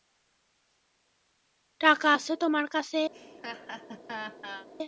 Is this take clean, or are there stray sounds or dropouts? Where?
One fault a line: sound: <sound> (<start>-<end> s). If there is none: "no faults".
sound: laugh (3.1-4.7 s)